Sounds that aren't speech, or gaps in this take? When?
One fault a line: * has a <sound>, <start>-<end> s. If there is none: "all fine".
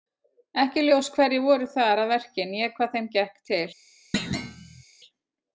* has a thud, 4.1-4.8 s